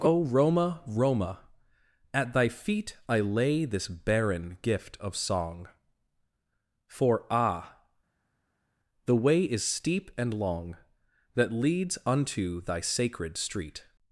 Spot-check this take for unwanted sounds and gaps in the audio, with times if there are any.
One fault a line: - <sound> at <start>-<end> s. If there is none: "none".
none